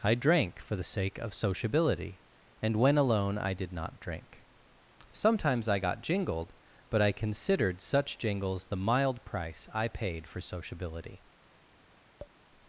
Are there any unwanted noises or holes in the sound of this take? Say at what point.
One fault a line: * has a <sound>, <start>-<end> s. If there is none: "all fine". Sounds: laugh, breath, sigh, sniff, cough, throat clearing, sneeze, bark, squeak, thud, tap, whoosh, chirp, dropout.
* has a tap, 12.2-12.4 s